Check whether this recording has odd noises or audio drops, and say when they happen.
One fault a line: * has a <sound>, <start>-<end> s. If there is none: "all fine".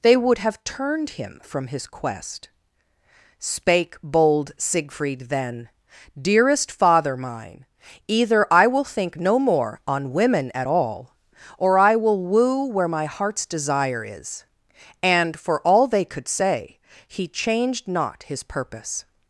all fine